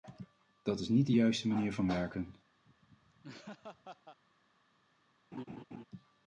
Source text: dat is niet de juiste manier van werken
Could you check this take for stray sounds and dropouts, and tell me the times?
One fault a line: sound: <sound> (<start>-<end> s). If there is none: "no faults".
sound: laugh (2.6-4.2 s)
sound: laugh (5.3-5.8 s)